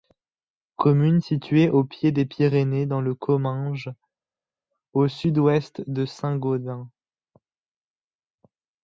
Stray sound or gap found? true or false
false